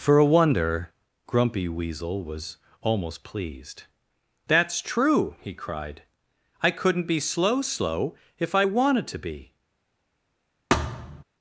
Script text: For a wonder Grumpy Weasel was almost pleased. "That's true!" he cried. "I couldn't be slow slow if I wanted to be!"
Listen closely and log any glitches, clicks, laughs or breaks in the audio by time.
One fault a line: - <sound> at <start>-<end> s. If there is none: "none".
- thud at 10.7-11.2 s